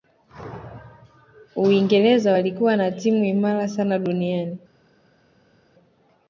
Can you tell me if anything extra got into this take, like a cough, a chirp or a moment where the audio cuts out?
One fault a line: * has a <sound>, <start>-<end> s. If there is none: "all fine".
all fine